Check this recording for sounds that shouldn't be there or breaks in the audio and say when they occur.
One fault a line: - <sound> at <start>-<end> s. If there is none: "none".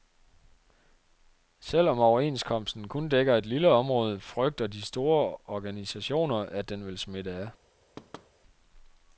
- thud at 8.0-8.3 s